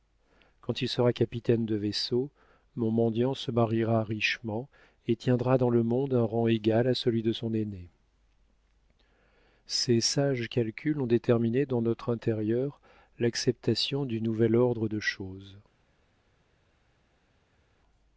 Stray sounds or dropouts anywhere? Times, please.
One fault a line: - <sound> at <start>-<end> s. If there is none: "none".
none